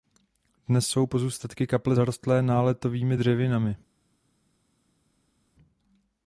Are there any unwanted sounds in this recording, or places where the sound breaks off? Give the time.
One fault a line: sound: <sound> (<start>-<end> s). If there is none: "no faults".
no faults